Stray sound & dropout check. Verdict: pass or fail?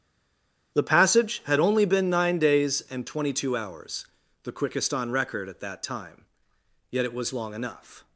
pass